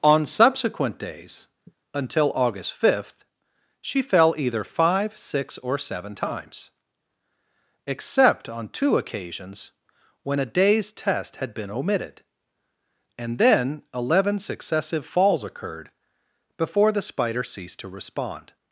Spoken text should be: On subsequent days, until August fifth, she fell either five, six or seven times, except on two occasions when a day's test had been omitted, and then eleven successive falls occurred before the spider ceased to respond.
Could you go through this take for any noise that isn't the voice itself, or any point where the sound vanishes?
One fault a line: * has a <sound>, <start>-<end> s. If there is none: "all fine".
* has a sigh, 1.7-1.8 s